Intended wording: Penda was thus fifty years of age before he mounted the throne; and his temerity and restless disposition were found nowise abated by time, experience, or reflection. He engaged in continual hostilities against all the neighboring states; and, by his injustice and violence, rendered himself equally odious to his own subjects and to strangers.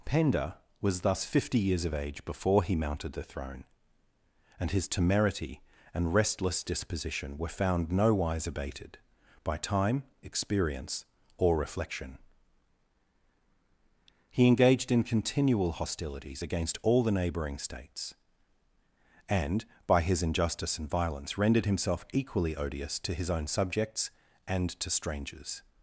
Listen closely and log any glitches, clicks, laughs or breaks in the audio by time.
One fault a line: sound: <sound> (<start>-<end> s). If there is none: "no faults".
no faults